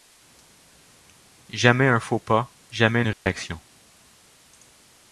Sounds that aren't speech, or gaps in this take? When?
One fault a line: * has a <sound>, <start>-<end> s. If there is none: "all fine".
* has a dropout, 3.1-3.3 s